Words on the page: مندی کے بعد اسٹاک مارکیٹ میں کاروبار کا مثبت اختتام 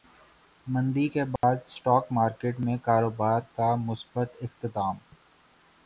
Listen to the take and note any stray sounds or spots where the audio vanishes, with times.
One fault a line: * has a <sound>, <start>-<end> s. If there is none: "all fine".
* has a dropout, 1.4-1.4 s